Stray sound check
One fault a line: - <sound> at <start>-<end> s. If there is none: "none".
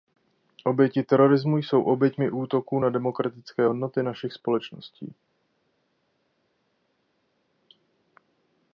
none